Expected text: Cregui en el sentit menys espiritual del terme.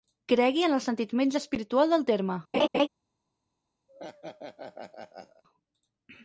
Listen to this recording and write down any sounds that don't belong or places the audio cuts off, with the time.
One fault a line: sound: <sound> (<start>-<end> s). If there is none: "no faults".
sound: laugh (2.5-2.9 s)
sound: laugh (3.9-5.4 s)